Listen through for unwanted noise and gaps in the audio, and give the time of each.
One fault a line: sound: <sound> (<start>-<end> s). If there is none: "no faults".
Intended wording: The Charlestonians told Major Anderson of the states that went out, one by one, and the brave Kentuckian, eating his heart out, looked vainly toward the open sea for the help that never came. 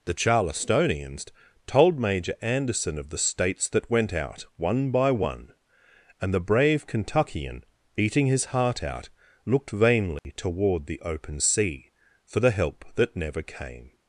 sound: dropout (10.2-10.2 s)